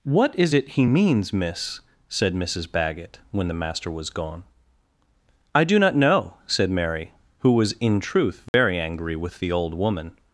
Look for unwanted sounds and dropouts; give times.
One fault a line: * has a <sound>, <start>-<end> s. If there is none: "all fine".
* has a dropout, 8.5-8.5 s